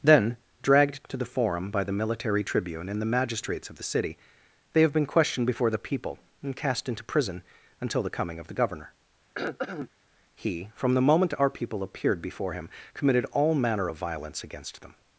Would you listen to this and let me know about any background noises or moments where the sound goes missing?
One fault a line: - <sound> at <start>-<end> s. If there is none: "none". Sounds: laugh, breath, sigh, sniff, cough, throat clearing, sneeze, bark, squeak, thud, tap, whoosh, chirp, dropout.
- throat clearing at 9.3-9.9 s